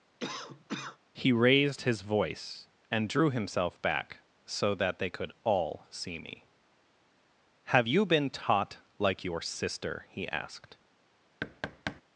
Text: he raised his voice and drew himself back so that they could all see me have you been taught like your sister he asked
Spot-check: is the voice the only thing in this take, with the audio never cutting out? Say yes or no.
no